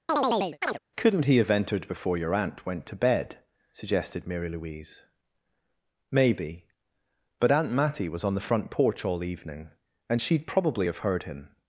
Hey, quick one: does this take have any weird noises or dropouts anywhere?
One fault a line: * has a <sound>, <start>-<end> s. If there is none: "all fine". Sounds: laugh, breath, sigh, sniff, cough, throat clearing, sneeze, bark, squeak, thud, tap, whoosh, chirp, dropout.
* has a chirp, 0.1-0.8 s